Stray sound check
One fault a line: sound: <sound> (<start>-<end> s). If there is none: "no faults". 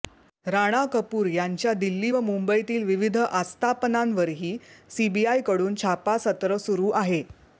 no faults